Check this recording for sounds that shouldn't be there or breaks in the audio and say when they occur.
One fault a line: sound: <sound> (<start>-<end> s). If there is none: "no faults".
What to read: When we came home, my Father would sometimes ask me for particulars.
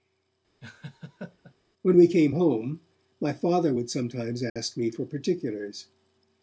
sound: laugh (0.6-1.6 s)
sound: dropout (4.5-4.6 s)